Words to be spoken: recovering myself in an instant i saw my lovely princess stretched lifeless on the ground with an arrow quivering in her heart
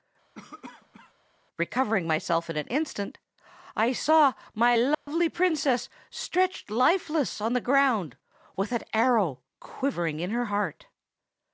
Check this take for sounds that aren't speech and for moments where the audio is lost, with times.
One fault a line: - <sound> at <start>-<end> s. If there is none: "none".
- cough at 0.3-1.1 s
- dropout at 4.9-5.1 s